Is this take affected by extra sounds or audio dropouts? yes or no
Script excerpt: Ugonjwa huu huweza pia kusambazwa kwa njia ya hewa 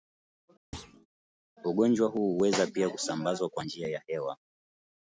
yes